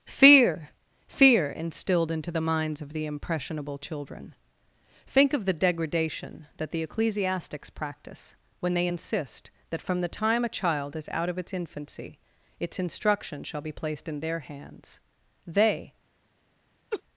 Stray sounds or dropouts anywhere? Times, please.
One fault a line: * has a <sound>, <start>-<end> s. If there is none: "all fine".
* has a laugh, 16.9-17.0 s